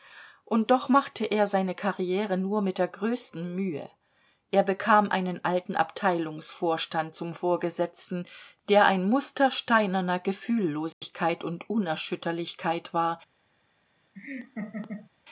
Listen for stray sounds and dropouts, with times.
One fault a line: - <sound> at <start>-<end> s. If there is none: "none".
- dropout at 10.9-11.0 s
- laugh at 14.1-15.1 s